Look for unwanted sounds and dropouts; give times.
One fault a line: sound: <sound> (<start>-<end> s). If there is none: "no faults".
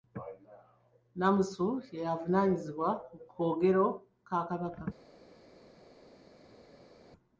no faults